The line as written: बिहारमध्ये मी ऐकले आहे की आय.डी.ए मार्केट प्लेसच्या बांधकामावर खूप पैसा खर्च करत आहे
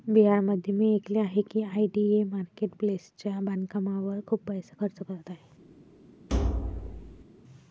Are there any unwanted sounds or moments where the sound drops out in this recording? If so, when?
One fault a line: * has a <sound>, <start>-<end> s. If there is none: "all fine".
* has a thud, 6.3-7.2 s